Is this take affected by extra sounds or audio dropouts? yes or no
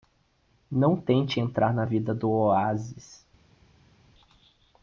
no